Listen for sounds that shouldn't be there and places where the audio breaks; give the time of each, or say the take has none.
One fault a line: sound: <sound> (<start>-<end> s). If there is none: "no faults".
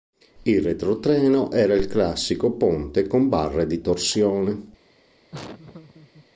sound: laugh (5.3-6.3 s)